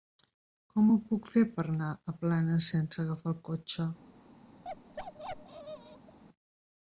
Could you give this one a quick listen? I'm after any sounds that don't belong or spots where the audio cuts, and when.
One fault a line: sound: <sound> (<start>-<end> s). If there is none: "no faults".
sound: bark (4.6-6.2 s)